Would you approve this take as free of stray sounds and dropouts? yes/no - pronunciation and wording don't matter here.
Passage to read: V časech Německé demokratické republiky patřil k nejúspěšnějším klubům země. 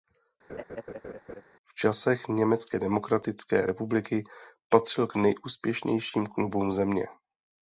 no